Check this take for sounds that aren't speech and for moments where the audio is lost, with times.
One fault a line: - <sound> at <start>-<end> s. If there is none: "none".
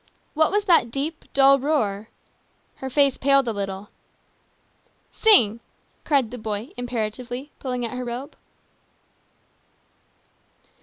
none